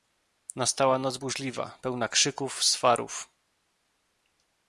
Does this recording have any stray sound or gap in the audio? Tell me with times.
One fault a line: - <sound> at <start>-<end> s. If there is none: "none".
none